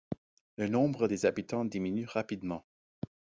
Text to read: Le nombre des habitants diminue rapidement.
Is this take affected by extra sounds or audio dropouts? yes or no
no